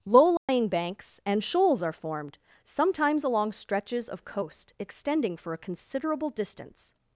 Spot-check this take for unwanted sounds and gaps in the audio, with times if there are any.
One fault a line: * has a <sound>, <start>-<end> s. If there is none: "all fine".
* has a dropout, 0.4-0.5 s